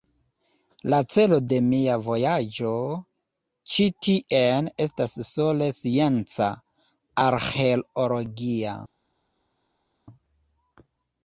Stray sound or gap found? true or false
false